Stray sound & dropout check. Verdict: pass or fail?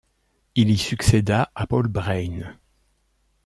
pass